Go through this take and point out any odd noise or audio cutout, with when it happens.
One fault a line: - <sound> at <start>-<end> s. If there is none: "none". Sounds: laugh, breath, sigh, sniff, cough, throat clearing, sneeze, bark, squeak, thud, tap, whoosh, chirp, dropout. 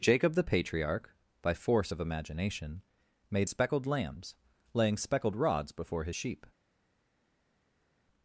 none